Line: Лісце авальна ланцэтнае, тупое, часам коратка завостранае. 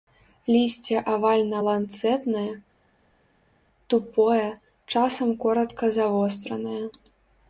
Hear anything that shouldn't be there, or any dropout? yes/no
no